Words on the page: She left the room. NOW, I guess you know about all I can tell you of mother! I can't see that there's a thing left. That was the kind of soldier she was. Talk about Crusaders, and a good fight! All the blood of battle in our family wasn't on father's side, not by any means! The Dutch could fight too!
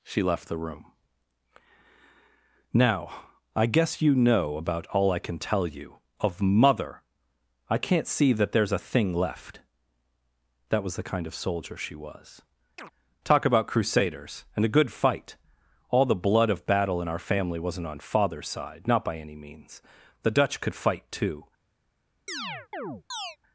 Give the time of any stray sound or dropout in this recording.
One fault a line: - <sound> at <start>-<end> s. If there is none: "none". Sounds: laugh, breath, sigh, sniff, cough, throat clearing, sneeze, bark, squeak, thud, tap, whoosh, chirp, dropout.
- chirp at 12.8-12.9 s
- chirp at 22.3-23.4 s